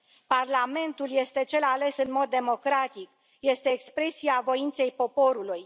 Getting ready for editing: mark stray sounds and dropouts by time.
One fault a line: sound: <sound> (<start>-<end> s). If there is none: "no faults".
no faults